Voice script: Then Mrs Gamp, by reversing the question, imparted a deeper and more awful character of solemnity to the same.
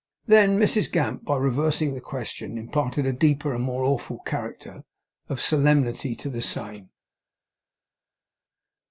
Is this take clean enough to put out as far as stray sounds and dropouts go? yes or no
yes